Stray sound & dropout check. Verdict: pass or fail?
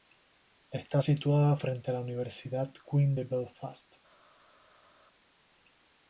pass